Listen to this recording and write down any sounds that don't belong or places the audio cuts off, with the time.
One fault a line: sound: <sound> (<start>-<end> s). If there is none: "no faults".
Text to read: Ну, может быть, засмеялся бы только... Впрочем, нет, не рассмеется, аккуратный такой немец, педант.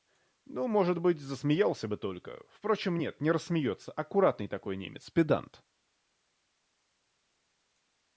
no faults